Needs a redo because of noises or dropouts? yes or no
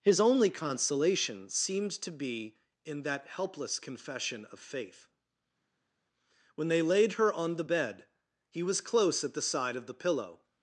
no